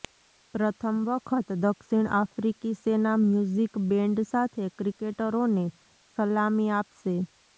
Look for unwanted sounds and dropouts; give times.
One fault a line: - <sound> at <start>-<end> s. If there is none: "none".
none